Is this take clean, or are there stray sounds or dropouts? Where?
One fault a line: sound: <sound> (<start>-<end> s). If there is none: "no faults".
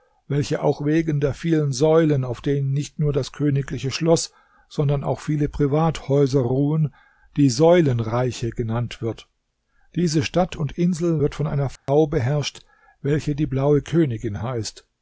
sound: dropout (11.8-11.9 s)